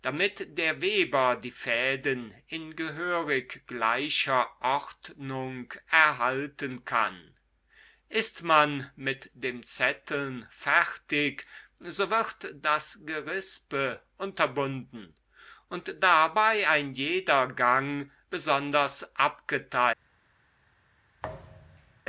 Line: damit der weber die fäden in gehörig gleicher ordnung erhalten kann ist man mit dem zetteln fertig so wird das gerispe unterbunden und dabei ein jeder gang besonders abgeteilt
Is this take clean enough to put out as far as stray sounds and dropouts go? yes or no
no